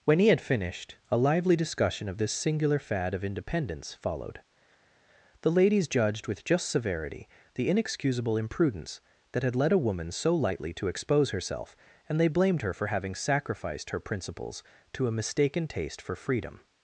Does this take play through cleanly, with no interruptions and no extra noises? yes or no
yes